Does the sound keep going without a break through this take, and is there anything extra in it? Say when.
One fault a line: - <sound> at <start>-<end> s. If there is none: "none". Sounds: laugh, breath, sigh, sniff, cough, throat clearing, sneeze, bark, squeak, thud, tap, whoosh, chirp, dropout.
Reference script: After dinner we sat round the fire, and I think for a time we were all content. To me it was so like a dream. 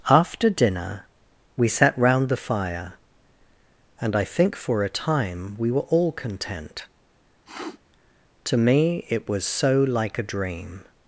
- sniff at 7.5-7.8 s